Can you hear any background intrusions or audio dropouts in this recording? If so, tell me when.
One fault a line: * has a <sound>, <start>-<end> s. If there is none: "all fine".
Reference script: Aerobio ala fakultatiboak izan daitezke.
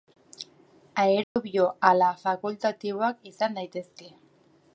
* has a dropout, 1.2-1.4 s